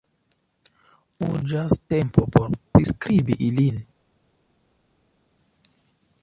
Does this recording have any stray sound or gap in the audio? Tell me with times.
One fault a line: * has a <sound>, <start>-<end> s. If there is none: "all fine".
all fine